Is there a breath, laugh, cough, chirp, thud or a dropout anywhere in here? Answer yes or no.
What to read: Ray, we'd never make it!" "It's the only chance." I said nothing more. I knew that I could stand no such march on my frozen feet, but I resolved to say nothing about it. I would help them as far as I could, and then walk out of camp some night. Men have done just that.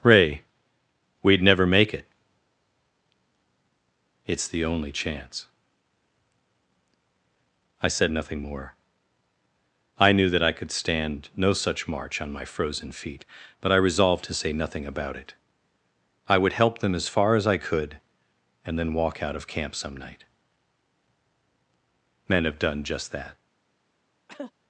yes